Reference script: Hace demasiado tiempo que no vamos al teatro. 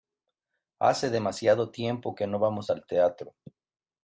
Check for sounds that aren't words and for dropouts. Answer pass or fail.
pass